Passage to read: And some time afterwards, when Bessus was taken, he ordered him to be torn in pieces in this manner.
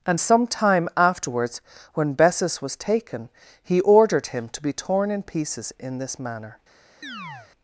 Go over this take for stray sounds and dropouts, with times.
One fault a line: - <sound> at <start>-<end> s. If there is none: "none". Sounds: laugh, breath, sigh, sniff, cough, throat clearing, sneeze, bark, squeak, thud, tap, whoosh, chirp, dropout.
- chirp at 7.0-7.5 s